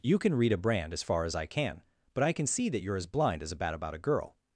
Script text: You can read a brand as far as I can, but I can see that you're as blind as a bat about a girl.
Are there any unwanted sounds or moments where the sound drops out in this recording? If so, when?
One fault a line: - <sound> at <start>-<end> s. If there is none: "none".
none